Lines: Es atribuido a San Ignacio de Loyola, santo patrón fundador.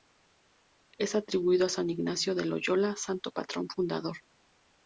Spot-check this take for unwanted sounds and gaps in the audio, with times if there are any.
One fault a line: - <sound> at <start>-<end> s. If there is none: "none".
none